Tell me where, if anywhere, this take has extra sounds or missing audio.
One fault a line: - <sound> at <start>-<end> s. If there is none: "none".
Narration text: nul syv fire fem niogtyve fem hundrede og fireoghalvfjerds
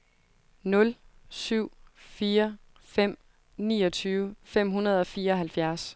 none